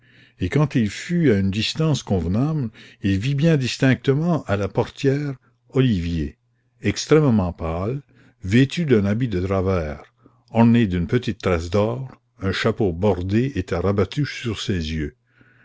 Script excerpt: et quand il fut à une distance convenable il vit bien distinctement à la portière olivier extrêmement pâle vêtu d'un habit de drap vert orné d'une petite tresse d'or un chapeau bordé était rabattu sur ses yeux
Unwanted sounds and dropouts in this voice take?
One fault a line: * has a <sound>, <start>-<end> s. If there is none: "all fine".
all fine